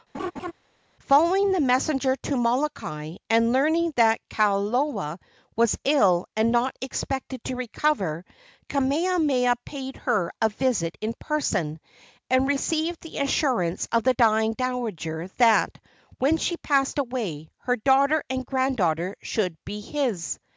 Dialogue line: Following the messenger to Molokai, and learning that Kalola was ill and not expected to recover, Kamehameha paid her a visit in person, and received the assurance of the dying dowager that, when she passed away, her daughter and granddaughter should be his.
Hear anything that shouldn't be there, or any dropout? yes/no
yes